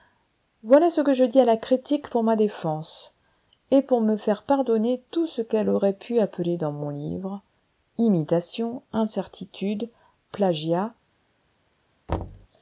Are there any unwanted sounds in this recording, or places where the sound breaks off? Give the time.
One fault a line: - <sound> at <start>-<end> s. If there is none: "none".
- thud at 12.1-12.5 s